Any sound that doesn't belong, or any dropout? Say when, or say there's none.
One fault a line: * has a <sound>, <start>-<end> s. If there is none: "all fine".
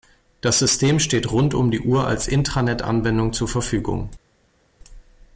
all fine